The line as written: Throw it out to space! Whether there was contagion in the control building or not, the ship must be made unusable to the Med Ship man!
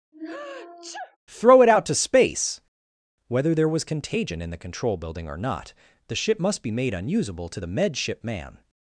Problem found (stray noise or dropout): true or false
true